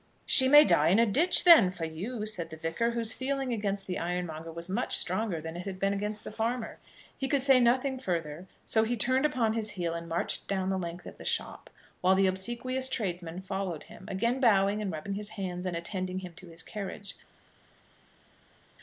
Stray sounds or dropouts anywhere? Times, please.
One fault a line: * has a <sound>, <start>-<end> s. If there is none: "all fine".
all fine